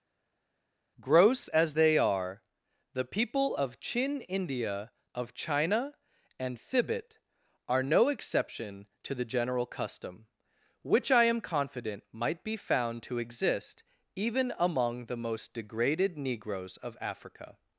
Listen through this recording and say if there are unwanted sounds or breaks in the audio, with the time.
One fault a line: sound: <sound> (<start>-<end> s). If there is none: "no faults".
no faults